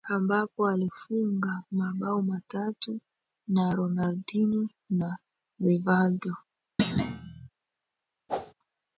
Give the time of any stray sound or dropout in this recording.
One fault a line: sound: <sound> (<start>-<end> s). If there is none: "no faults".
sound: thud (6.8-7.5 s)
sound: whoosh (8.3-8.5 s)